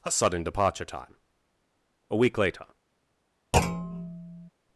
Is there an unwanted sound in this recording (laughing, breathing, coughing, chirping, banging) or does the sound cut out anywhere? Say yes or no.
yes